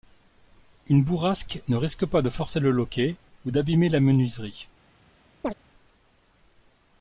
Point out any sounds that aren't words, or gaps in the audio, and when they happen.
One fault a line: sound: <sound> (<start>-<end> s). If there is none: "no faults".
sound: chirp (5.4-5.5 s)